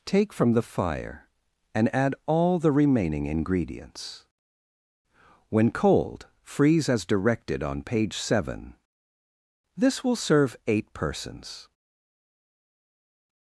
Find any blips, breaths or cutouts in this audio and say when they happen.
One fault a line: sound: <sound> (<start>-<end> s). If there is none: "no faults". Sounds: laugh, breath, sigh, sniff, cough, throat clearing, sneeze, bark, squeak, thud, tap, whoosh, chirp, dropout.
no faults